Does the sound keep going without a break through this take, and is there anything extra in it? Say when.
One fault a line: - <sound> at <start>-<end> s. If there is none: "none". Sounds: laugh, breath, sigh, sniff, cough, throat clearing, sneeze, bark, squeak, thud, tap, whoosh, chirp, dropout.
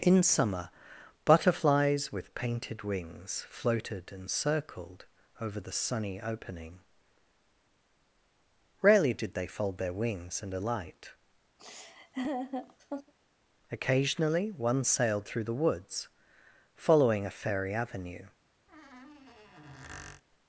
- laugh at 11.6-13.1 s
- squeak at 18.7-20.2 s